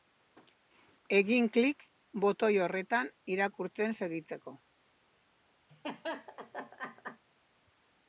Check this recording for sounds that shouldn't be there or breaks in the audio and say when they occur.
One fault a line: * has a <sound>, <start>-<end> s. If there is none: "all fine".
* has a laugh, 5.7-7.2 s